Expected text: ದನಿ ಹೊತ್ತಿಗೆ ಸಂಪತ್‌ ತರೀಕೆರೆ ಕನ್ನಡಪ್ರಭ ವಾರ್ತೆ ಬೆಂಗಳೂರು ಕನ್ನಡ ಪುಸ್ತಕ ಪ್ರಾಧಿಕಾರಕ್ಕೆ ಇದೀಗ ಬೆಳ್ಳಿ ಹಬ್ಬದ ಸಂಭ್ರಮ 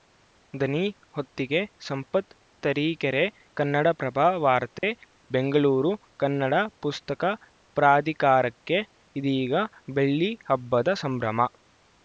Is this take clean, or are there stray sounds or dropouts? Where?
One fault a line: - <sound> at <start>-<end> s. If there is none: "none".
- dropout at 4.8-4.8 s